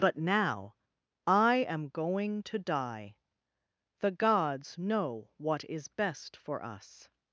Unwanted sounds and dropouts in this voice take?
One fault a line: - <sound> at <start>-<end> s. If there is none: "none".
none